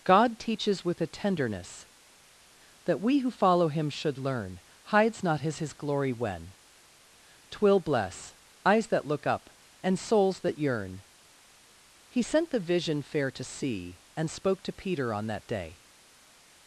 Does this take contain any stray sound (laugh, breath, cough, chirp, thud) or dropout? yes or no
no